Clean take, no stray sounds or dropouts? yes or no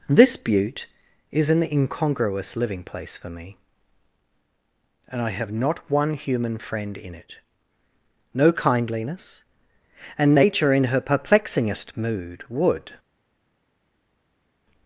yes